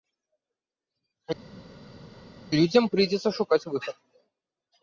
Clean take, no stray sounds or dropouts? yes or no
yes